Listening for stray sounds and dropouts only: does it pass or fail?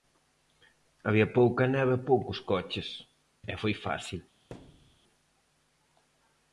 fail